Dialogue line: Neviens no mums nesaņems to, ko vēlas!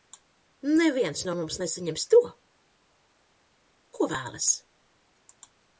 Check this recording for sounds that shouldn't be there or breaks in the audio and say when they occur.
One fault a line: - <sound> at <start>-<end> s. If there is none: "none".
none